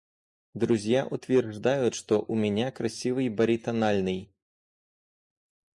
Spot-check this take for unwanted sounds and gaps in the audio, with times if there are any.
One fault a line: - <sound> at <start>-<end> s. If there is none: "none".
none